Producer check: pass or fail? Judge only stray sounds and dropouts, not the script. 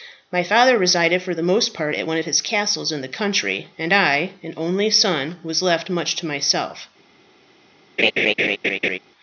fail